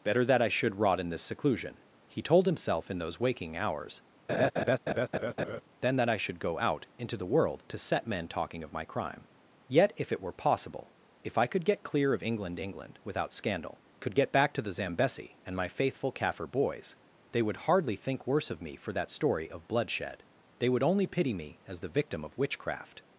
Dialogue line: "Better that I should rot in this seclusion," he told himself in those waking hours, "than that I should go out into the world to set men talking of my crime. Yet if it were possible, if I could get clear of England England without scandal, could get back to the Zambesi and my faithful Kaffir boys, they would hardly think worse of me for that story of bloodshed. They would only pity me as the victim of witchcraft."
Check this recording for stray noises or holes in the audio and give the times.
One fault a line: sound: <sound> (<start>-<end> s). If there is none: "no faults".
sound: laugh (4.3-5.6 s)